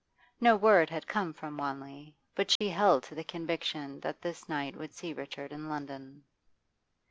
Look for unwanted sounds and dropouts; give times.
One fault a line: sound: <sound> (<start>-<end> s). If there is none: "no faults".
sound: dropout (2.6-2.6 s)